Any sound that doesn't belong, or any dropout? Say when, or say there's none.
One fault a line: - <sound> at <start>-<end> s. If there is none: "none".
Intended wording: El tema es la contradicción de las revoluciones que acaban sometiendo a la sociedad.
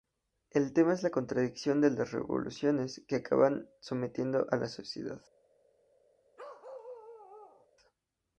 - bark at 6.4-7.7 s